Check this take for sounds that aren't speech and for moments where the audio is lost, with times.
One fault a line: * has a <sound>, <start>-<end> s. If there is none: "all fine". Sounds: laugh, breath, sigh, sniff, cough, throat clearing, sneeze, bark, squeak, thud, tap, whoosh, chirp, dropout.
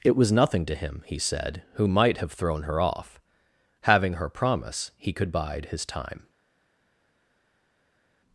all fine